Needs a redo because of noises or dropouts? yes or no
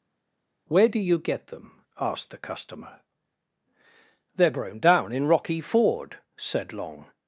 no